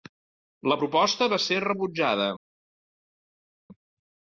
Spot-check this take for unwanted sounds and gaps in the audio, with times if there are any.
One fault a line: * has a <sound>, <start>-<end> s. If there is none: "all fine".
all fine